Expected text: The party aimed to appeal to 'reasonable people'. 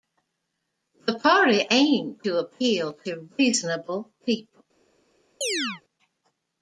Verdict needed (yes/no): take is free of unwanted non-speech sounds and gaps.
no